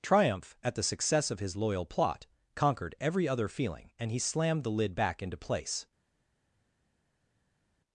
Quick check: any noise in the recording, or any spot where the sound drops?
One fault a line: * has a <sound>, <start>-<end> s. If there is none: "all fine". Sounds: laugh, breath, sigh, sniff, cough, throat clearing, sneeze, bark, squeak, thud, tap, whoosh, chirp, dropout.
all fine